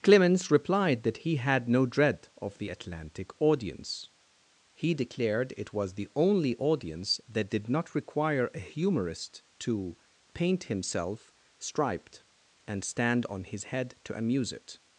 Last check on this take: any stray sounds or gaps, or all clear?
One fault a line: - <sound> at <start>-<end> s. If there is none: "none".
none